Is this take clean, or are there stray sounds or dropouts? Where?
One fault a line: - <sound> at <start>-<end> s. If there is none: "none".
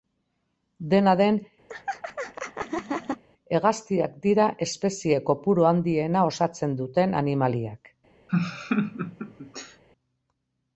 - laugh at 1.7-3.2 s
- laugh at 8.3-9.8 s